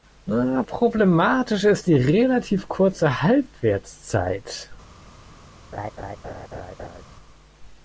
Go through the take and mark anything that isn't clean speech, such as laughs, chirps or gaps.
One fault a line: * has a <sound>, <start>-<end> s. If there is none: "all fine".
* has a laugh, 5.7-7.0 s